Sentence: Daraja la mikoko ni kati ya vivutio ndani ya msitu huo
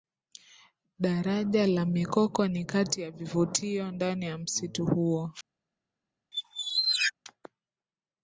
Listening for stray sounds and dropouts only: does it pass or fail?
fail